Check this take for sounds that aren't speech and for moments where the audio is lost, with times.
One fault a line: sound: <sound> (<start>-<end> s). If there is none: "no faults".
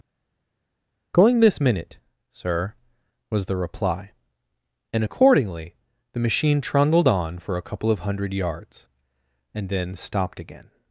no faults